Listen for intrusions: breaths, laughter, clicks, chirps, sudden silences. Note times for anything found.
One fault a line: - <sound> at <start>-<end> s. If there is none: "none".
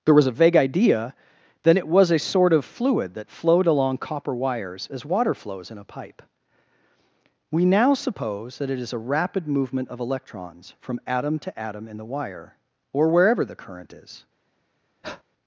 - breath at 15.0-15.2 s